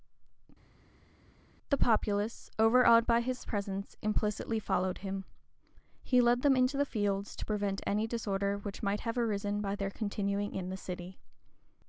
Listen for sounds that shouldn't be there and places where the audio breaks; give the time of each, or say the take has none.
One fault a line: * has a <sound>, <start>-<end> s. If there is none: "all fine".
all fine